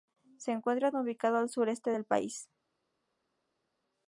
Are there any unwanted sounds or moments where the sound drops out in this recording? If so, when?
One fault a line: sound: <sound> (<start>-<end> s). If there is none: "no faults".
no faults